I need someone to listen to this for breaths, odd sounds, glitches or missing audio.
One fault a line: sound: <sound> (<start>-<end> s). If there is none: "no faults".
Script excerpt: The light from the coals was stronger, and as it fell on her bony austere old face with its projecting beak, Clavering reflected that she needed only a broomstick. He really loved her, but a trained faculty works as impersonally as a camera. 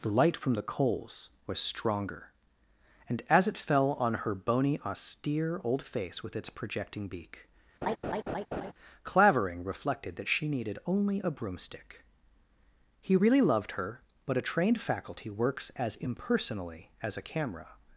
sound: laugh (7.8-8.7 s)